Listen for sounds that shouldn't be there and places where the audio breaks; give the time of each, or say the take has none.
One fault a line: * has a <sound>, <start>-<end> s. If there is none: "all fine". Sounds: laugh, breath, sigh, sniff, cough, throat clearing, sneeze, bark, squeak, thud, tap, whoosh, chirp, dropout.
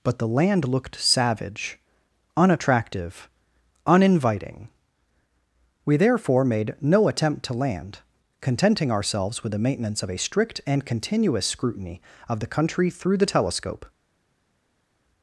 all fine